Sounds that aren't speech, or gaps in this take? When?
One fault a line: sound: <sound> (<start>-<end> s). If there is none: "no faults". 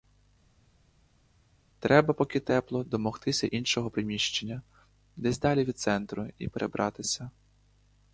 no faults